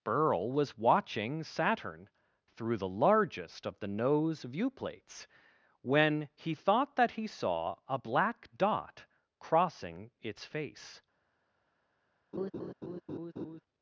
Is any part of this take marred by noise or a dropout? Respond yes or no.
yes